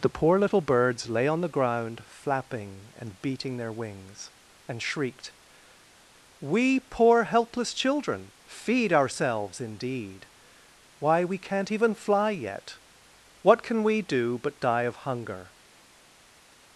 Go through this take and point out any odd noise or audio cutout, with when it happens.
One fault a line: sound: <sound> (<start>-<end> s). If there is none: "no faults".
no faults